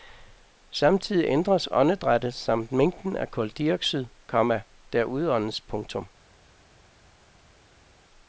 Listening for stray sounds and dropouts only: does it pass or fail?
pass